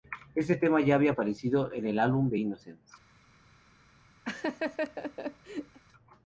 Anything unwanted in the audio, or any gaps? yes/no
yes